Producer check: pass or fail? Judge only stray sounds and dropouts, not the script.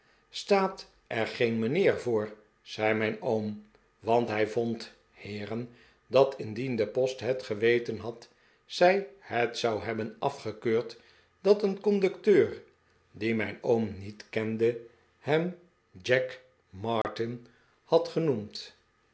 fail